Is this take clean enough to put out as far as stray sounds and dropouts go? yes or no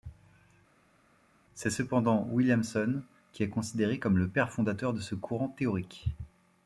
yes